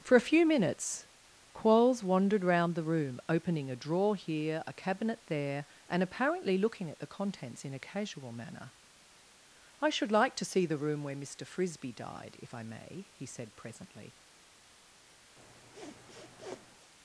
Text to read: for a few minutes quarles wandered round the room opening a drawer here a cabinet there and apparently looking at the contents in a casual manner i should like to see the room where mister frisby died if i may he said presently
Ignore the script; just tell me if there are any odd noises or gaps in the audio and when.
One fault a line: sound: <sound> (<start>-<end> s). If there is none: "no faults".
sound: sniff (15.4-16.9 s)